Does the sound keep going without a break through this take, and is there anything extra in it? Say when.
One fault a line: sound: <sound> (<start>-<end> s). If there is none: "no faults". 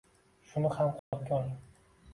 sound: dropout (1.0-1.1 s)